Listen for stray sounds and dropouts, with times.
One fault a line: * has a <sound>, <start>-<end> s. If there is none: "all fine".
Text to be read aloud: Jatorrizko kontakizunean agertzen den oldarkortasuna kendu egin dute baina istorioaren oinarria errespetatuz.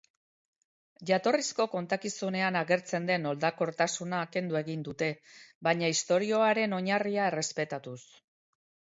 all fine